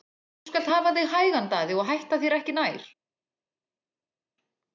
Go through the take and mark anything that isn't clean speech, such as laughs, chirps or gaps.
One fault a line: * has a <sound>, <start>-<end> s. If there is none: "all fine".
all fine